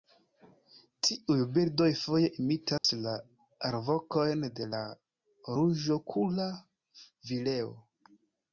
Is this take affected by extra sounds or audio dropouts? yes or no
yes